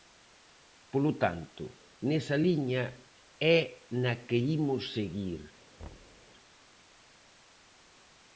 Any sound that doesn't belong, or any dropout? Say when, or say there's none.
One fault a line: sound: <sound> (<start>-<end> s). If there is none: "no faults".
sound: thud (5.8-6.3 s)